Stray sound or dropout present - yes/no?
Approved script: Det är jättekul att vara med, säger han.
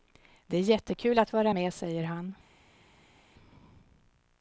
no